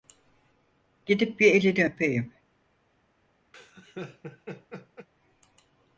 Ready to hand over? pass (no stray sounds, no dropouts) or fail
fail